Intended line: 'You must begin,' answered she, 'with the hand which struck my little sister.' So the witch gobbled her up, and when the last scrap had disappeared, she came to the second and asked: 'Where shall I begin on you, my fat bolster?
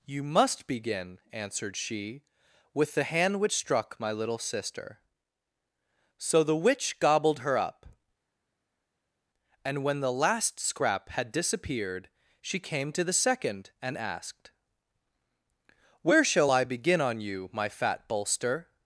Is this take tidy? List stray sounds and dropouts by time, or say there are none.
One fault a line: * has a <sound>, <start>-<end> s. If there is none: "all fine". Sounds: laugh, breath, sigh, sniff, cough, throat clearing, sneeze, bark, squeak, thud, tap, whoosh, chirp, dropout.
all fine